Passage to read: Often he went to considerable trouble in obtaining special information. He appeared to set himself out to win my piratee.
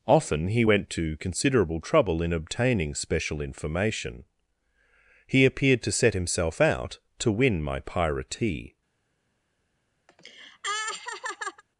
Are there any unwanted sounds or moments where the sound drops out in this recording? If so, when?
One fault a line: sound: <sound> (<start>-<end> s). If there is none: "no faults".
sound: laugh (10.1-11.6 s)